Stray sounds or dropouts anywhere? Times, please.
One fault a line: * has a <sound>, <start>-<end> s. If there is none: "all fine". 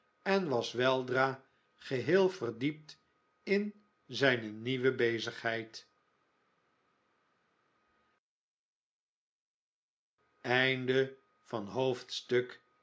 all fine